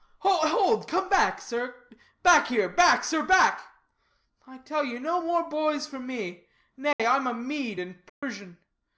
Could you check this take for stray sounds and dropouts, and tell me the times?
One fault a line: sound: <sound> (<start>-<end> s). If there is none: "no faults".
sound: dropout (6.9-7.0 s)
sound: dropout (8.1-8.2 s)